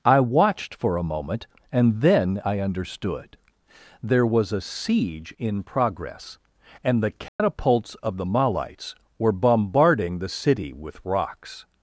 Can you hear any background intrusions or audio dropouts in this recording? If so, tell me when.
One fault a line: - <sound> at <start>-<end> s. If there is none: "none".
- dropout at 7.3-7.4 s